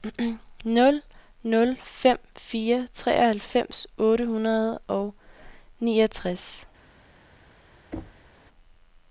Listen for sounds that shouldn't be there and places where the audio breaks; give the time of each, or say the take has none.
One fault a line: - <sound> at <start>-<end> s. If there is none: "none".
- thud at 7.9-8.3 s